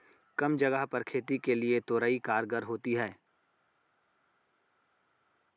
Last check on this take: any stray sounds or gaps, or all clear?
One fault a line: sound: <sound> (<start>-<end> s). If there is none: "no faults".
no faults